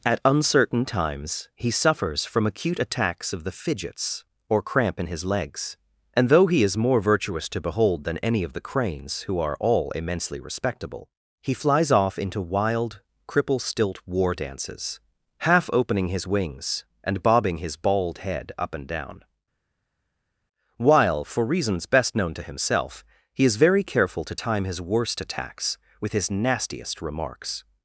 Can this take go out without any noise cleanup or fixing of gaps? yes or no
yes